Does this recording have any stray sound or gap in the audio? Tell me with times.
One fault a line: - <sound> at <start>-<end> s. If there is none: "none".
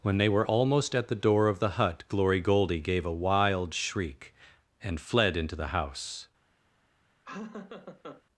- laugh at 7.2-8.2 s